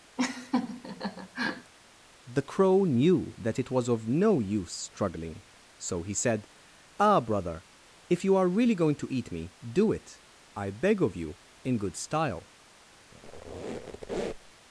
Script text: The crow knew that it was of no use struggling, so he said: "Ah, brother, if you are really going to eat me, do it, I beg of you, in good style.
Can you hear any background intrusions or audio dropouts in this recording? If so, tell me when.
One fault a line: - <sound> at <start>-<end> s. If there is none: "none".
- laugh at 0.2-1.7 s
- squeak at 13.1-14.5 s